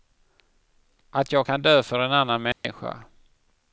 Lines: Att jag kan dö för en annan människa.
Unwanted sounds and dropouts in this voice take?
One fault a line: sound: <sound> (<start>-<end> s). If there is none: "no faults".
sound: dropout (2.5-2.6 s)